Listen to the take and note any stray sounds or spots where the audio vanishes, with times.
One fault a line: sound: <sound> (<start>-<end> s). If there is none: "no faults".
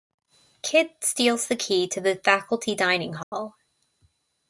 sound: dropout (3.2-3.3 s)